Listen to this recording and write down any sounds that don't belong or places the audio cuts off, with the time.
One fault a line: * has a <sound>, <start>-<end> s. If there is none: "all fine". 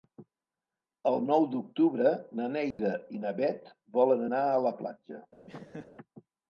* has a dropout, 2.7-2.8 s
* has a laugh, 5.5-5.9 s